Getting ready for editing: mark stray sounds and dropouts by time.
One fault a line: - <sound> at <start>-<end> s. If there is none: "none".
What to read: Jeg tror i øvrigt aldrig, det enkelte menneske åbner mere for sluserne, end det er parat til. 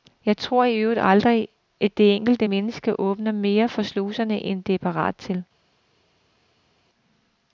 none